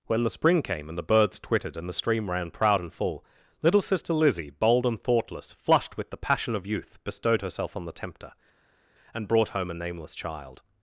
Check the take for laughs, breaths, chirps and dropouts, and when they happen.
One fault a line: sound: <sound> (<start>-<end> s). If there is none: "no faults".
no faults